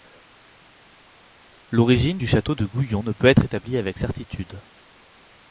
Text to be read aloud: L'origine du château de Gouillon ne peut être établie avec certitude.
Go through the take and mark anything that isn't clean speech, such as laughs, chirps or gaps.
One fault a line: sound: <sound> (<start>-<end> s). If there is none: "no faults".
no faults